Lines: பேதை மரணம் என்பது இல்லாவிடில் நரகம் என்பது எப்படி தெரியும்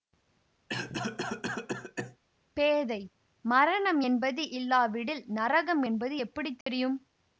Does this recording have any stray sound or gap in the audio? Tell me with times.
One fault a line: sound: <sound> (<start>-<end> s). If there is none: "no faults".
sound: cough (0.7-2.2 s)
sound: dropout (6.6-6.7 s)